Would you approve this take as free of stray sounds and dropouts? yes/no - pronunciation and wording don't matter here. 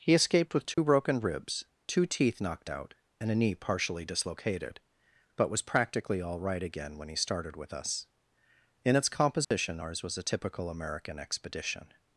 no